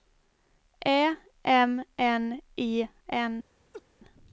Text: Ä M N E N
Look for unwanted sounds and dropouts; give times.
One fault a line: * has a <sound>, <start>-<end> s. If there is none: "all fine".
* has a laugh, 3.7-3.8 s